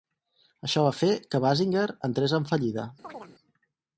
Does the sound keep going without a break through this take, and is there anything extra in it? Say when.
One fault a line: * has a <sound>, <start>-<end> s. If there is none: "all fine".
* has a chirp, 3.0-3.4 s